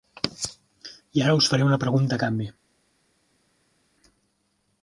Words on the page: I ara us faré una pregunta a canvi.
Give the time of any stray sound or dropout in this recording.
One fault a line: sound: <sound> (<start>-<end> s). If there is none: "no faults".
no faults